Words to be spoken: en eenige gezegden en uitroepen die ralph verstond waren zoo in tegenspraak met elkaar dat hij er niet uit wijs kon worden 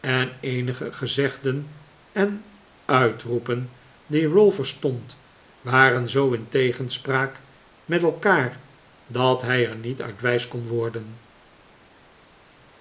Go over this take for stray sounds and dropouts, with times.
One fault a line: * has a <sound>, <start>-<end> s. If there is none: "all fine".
all fine